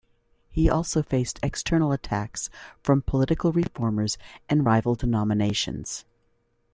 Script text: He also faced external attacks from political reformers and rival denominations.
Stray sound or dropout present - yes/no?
no